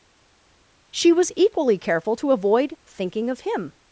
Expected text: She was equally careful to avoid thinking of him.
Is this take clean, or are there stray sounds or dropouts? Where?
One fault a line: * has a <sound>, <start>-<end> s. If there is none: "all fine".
all fine